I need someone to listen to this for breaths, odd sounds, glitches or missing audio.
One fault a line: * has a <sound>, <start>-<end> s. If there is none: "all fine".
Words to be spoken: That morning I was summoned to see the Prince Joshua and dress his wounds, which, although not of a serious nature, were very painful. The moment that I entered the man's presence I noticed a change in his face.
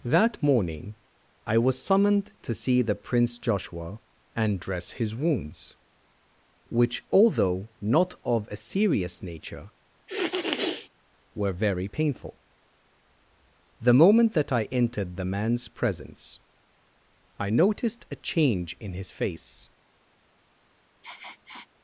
* has a sniff, 10.1-10.9 s
* has a sniff, 21.0-21.7 s